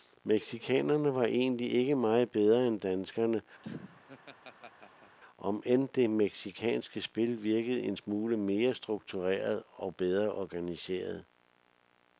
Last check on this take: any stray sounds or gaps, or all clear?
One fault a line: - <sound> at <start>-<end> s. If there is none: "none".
- laugh at 3.6-5.2 s